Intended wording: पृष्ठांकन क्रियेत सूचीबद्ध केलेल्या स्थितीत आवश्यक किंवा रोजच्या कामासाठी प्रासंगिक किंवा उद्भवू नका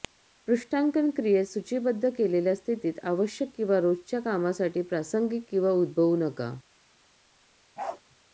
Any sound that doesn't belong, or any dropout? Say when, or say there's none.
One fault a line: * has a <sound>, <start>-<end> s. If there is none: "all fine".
* has a bark, 7.8-8.0 s